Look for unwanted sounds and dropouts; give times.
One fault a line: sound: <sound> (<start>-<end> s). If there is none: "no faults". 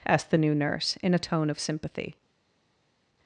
no faults